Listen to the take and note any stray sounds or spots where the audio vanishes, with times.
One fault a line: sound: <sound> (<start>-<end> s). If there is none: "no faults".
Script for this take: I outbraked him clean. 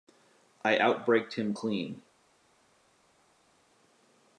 no faults